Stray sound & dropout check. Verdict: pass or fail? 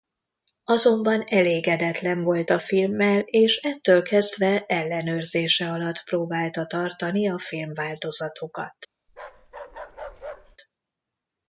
fail